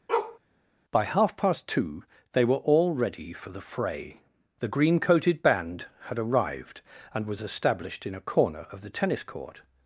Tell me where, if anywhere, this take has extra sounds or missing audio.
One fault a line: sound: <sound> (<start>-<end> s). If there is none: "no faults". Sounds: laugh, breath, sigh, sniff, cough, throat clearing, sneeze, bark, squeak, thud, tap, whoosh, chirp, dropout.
sound: bark (0.1-0.4 s)